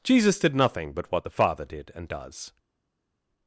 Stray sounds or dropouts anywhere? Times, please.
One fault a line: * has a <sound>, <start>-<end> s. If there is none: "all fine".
all fine